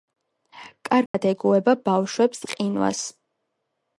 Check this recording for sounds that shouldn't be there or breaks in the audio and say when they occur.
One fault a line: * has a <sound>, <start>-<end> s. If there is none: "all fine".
* has a dropout, 1.1-1.1 s